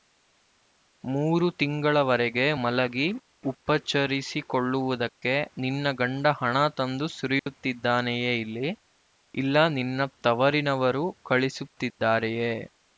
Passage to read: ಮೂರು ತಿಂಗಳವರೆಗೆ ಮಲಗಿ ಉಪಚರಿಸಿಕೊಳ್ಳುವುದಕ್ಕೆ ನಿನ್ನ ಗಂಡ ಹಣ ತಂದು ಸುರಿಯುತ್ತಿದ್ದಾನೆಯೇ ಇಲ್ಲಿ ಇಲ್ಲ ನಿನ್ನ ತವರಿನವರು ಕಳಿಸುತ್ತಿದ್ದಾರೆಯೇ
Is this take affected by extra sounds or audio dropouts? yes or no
yes